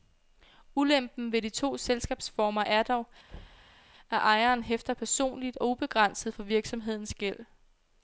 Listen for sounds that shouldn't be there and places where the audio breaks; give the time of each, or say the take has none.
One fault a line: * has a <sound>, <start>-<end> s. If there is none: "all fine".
* has a thud, 3.3-3.8 s